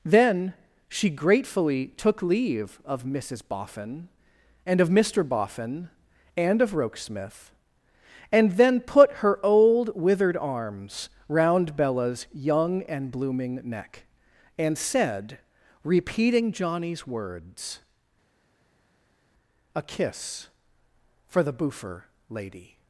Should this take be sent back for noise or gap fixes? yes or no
no